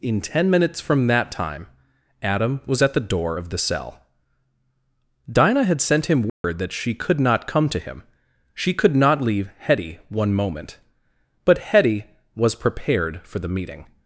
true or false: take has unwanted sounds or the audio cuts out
true